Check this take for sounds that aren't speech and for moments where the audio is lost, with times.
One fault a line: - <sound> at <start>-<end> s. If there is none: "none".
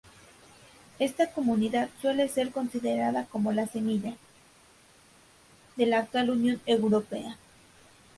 none